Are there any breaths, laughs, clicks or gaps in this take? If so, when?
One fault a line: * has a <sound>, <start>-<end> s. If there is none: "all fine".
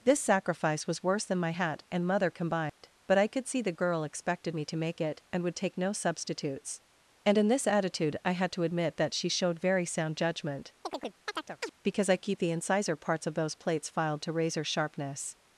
* has a dropout, 2.7-2.8 s
* has a chirp, 10.8-11.7 s